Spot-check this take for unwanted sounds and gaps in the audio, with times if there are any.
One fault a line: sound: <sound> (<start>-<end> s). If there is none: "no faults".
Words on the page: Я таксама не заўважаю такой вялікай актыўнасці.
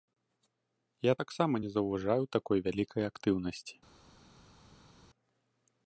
no faults